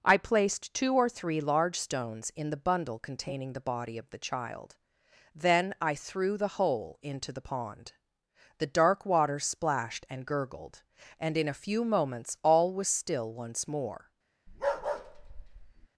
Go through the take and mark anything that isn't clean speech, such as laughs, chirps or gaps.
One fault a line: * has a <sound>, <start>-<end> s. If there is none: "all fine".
* has a bark, 14.5-15.9 s